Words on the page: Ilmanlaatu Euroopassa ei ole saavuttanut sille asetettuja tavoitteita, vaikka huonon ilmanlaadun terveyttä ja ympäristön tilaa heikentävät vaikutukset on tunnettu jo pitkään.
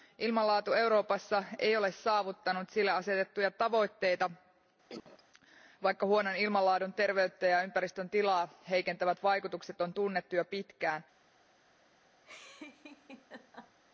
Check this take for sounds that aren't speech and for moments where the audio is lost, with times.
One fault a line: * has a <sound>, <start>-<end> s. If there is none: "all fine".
* has a cough, 4.9-5.2 s
* has a laugh, 12.2-13.8 s